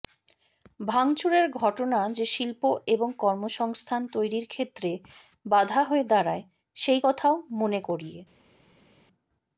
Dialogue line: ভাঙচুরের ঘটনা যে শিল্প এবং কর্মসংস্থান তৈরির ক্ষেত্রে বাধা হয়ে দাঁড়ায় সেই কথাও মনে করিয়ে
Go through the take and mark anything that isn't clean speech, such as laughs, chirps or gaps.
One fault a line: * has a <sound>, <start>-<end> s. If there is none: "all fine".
all fine